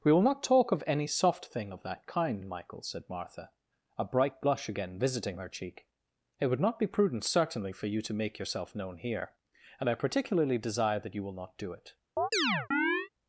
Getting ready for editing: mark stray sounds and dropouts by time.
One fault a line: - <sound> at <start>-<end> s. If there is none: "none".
- chirp at 12.2-13.1 s